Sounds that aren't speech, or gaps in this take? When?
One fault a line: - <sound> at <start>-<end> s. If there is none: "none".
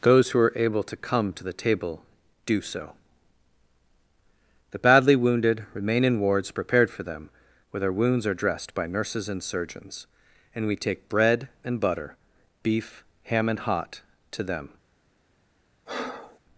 - breath at 15.9-16.4 s